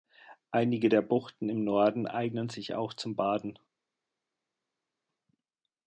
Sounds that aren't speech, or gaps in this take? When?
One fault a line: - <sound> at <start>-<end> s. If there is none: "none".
none